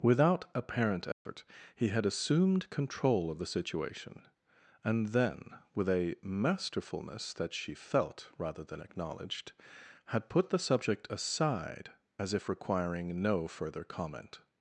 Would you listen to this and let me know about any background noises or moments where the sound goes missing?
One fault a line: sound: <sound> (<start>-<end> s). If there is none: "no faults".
sound: dropout (1.1-1.3 s)